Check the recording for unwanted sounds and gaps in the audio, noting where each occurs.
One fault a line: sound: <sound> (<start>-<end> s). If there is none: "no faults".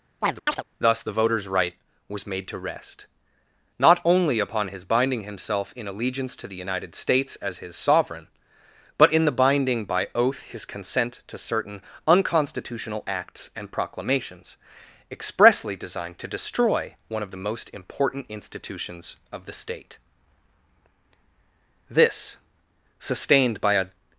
sound: chirp (0.2-0.6 s)